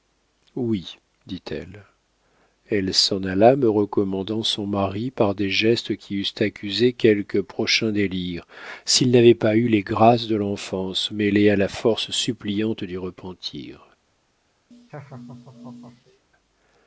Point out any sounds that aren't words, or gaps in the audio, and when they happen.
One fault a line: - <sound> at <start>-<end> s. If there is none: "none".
- laugh at 14.7-16.2 s